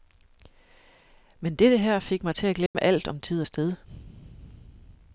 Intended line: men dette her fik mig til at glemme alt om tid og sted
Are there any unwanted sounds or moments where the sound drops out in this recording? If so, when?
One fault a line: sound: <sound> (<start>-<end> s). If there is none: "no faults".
sound: dropout (2.7-2.7 s)